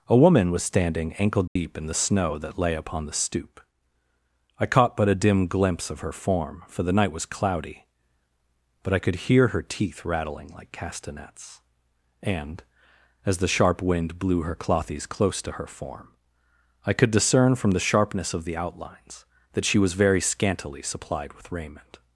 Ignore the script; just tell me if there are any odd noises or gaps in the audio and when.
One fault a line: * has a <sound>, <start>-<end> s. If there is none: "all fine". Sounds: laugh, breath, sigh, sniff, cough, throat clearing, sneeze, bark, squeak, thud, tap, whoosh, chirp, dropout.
* has a dropout, 1.5-1.6 s